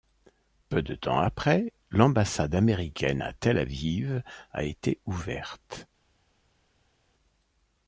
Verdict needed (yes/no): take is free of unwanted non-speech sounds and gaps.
yes